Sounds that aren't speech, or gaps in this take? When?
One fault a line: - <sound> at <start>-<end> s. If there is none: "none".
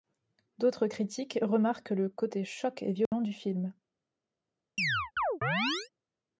- dropout at 3.1-3.1 s
- chirp at 4.8-5.9 s